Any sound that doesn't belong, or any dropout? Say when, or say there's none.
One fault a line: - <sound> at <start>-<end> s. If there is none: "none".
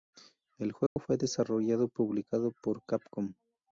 - dropout at 0.9-1.0 s